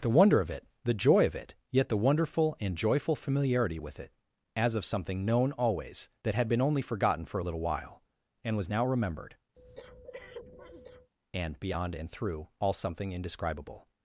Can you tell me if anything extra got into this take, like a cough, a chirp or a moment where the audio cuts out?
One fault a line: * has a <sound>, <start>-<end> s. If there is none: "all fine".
* has a breath, 9.5-11.1 s